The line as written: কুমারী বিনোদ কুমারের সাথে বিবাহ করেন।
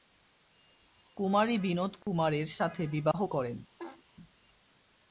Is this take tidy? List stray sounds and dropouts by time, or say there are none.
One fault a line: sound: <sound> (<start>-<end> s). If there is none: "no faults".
sound: dropout (2.0-2.1 s)
sound: laugh (3.8-4.0 s)